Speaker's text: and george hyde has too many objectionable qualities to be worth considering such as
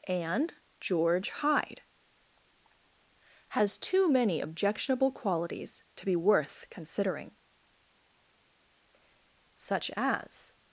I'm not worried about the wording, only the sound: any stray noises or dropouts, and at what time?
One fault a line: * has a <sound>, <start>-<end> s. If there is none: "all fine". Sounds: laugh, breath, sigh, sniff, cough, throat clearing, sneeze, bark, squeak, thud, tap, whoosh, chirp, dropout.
all fine